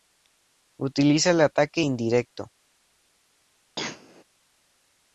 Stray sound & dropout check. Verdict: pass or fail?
fail